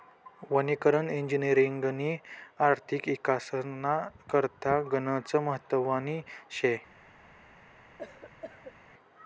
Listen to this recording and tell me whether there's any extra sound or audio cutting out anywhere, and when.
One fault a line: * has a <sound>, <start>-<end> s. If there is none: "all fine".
* has a cough, 8.0-8.8 s